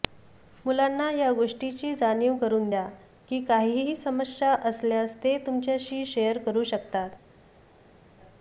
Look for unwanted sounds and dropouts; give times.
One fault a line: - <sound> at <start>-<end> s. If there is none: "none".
none